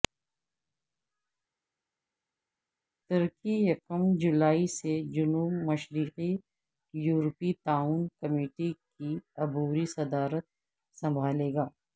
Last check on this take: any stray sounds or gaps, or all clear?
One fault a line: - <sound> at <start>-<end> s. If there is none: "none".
none